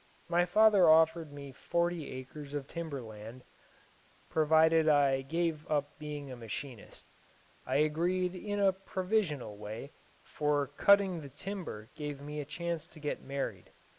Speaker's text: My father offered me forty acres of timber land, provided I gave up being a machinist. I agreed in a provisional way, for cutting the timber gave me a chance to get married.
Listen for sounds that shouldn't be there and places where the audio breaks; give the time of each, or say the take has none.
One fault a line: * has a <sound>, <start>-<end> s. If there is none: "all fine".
all fine